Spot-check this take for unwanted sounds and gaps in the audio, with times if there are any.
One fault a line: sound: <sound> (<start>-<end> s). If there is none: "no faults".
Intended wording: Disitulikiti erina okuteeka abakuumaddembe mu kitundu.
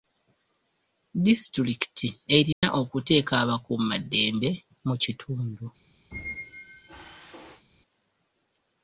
sound: dropout (2.5-2.6 s)
sound: squeak (6.1-7.6 s)